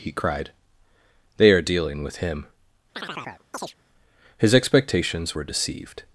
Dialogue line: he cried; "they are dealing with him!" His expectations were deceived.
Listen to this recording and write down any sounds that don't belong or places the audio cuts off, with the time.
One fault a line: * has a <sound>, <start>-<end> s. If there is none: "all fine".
* has a chirp, 2.9-3.8 s